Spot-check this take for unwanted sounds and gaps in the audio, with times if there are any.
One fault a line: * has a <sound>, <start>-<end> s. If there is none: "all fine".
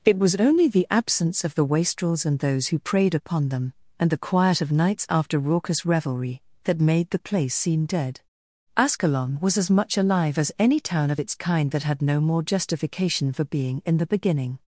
all fine